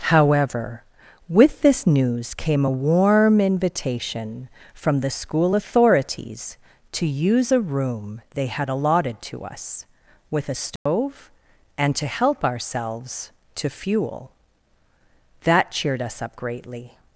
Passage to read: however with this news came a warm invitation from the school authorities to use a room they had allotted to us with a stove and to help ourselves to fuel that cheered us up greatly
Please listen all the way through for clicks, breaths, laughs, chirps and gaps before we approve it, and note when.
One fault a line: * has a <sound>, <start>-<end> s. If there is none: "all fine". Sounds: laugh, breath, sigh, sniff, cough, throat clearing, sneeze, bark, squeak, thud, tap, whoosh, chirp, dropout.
* has a dropout, 10.8-10.9 s